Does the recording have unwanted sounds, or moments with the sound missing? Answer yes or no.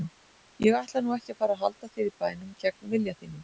no